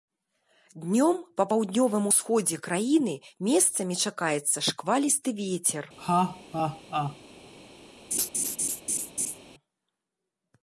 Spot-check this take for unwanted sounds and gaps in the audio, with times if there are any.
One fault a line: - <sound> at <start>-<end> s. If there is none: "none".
- laugh at 6.0-7.2 s
- laugh at 8.1-9.4 s